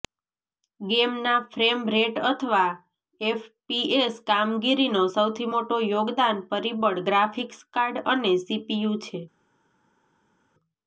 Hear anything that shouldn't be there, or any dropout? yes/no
no